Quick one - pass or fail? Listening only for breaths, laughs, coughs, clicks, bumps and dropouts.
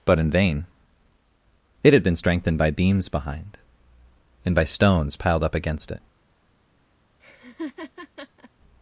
fail